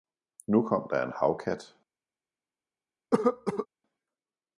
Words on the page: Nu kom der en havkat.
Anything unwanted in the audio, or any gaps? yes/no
yes